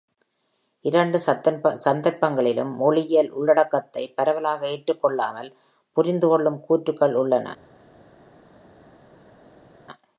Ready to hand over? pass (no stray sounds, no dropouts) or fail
pass